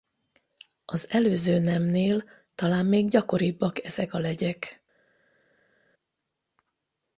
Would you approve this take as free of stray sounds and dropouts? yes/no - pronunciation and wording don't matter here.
yes